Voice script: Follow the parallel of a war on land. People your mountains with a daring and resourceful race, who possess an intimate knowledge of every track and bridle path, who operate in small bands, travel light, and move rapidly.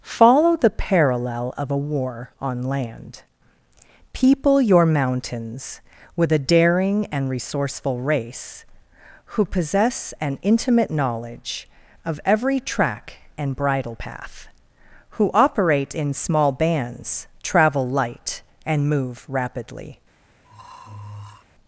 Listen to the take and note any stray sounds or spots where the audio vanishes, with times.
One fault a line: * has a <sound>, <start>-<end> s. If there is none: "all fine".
* has a throat clearing, 20.4-21.4 s